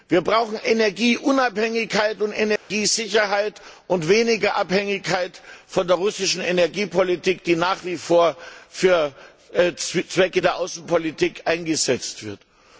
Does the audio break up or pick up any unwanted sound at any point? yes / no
yes